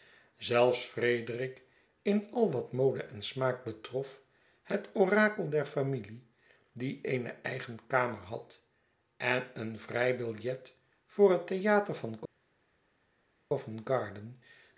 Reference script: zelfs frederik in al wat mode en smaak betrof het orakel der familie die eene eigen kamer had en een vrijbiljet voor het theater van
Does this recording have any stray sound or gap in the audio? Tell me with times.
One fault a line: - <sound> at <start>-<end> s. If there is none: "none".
none